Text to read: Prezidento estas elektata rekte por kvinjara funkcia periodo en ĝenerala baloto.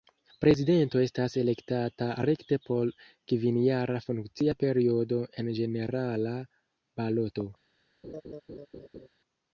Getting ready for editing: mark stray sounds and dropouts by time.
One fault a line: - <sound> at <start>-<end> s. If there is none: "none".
- laugh at 8.0-9.1 s